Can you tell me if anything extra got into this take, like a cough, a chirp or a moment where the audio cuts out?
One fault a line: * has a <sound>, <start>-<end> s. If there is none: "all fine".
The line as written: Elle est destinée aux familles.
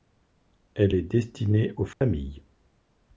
* has a dropout, 1.9-2.0 s